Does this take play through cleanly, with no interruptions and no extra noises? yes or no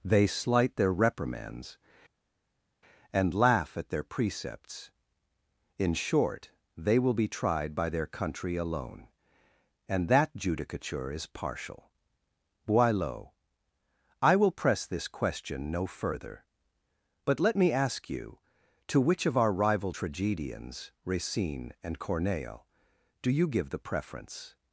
yes